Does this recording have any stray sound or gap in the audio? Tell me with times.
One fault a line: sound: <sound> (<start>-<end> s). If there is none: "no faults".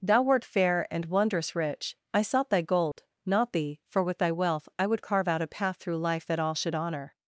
sound: dropout (2.9-3.0 s)